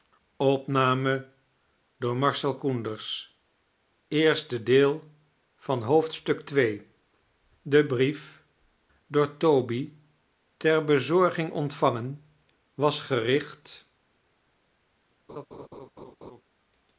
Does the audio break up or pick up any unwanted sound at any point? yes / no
yes